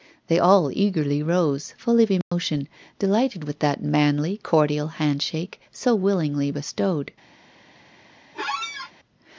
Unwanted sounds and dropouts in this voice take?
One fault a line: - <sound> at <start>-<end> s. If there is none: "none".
- dropout at 2.2-2.3 s
- squeak at 8.3-8.9 s